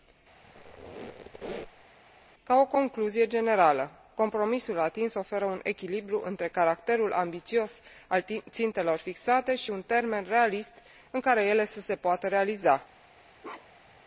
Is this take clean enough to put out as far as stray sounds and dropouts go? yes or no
no